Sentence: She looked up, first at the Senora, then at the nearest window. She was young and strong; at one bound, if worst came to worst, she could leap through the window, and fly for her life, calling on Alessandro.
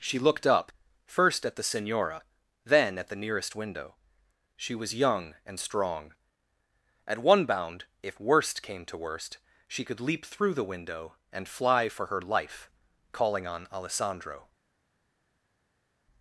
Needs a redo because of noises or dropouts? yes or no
no